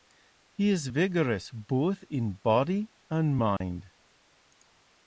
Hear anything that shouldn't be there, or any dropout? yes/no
yes